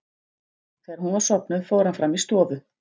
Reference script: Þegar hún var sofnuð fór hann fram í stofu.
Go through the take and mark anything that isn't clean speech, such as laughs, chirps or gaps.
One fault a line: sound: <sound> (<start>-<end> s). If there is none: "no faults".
no faults